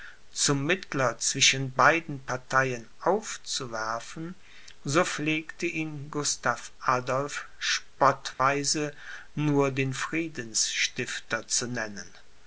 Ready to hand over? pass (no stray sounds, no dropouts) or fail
fail